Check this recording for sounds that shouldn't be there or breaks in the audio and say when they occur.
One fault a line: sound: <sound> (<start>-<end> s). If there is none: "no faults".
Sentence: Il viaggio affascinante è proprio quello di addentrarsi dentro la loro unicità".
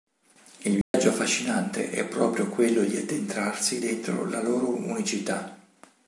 sound: dropout (0.8-0.9 s)